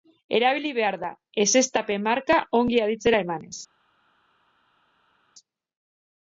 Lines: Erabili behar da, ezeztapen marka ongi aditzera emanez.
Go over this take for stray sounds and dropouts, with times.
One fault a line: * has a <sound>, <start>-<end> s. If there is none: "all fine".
all fine